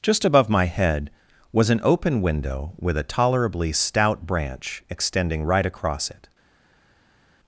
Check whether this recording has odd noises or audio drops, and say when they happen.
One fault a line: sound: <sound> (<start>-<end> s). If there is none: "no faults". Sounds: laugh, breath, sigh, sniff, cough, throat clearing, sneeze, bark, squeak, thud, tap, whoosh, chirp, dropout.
no faults